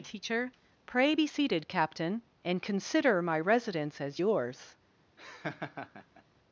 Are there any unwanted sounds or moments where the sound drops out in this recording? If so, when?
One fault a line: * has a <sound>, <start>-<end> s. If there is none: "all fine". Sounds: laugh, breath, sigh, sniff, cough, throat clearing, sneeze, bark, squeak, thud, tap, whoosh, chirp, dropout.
* has a laugh, 5.2-6.2 s